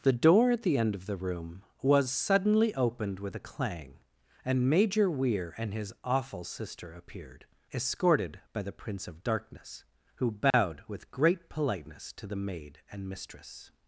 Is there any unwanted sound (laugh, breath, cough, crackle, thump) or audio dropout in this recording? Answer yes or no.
yes